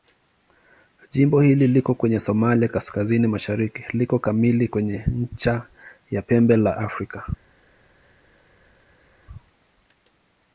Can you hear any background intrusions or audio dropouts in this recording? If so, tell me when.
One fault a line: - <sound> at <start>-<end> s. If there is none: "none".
none